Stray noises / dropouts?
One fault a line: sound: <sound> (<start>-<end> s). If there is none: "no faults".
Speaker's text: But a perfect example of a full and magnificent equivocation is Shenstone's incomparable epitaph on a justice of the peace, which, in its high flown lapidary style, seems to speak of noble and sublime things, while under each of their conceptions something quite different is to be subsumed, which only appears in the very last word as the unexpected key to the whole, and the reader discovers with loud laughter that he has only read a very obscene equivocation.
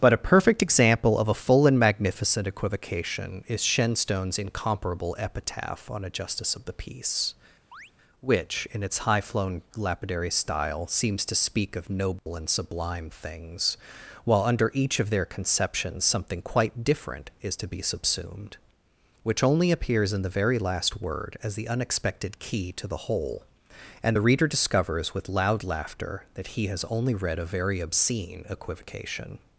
sound: chirp (7.7-7.9 s)
sound: dropout (12.2-12.3 s)